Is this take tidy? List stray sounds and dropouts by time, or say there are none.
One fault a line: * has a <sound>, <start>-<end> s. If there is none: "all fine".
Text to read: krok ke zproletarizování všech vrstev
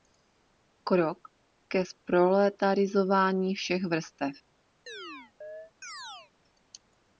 * has a chirp, 4.9-6.3 s